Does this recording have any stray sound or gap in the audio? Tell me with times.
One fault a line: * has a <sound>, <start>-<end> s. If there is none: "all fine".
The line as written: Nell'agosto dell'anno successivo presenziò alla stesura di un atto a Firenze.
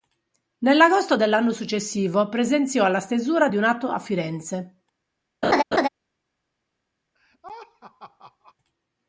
* has a laugh, 5.4-5.9 s
* has a laugh, 7.1-8.5 s